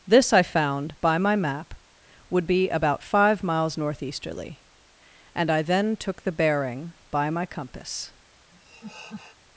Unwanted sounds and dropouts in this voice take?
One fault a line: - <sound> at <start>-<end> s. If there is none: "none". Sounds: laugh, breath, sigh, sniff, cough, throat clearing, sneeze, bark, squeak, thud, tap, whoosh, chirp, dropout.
- laugh at 8.5-9.4 s